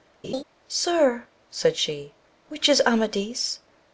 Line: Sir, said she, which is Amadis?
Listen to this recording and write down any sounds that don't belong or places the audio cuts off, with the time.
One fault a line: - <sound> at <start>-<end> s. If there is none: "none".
- laugh at 0.2-0.4 s